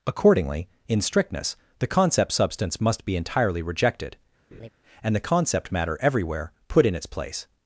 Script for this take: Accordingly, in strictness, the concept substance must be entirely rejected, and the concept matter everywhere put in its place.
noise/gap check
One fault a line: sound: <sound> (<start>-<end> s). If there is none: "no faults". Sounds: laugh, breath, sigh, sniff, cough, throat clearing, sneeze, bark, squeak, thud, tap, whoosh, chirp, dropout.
sound: laugh (4.5-4.7 s)